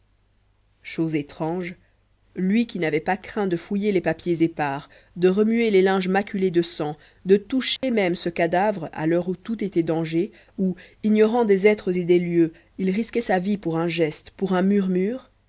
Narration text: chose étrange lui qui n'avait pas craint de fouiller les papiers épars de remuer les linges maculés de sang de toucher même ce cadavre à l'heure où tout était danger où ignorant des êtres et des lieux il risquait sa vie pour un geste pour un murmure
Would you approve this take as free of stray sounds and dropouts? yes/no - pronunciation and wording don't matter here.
no